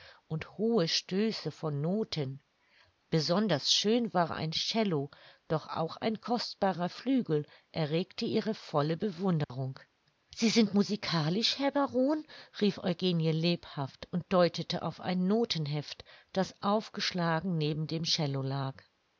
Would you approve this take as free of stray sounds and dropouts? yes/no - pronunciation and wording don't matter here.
no